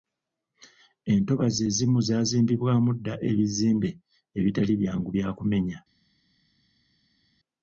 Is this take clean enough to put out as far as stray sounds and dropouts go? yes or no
yes